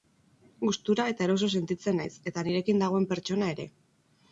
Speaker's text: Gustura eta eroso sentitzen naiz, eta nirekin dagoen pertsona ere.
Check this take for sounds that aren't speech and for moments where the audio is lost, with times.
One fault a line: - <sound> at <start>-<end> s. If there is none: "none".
none